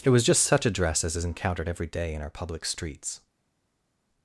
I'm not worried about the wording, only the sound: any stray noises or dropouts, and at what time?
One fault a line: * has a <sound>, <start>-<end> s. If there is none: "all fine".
all fine